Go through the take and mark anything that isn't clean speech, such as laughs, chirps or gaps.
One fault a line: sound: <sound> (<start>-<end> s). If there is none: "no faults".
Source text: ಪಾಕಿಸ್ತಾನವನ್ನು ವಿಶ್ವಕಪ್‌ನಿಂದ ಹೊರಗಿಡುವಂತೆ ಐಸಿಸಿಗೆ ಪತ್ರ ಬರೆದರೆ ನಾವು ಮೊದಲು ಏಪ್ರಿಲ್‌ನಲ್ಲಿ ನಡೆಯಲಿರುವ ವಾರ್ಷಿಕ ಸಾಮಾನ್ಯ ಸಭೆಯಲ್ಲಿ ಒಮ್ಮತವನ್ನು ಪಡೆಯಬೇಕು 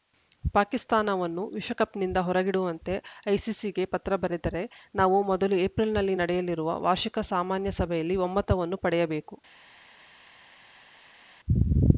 no faults